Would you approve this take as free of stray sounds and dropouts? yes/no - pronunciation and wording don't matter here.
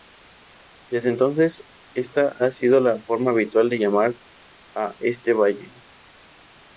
yes